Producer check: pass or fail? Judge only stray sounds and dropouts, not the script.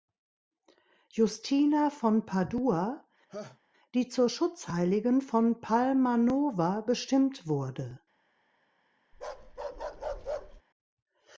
fail